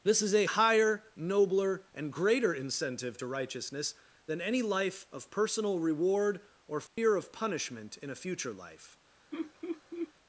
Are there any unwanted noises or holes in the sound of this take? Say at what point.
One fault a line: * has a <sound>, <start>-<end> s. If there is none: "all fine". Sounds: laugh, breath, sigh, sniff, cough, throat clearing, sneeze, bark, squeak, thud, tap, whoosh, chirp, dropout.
* has a dropout, 6.9-7.0 s
* has a laugh, 9.3-10.1 s